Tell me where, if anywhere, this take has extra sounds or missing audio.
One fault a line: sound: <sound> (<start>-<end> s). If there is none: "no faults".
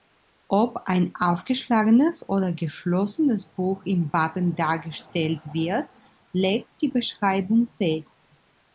no faults